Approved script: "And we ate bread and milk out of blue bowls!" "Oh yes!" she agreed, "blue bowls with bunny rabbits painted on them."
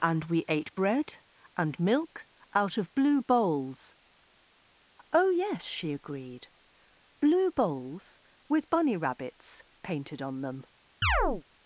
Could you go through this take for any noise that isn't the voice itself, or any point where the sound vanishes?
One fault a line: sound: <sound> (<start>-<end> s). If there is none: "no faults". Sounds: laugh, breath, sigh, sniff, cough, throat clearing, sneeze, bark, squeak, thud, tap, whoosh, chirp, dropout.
sound: chirp (11.0-11.4 s)